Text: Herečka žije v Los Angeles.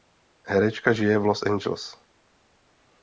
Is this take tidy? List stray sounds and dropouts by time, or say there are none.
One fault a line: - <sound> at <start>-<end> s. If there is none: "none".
none